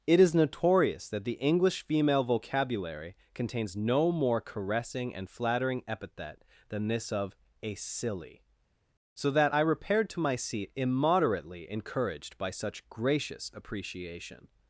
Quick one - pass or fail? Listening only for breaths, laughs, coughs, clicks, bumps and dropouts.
pass